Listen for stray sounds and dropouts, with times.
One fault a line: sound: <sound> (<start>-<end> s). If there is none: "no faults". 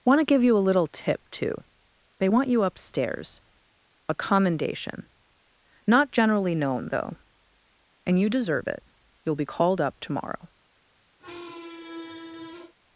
sound: squeak (11.2-12.7 s)